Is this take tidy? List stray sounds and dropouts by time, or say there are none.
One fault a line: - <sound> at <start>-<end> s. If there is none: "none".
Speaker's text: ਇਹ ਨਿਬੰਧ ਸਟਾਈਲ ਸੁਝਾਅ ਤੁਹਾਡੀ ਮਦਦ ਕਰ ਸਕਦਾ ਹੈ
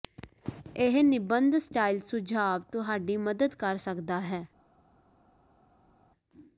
none